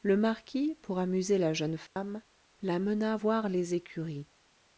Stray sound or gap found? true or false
true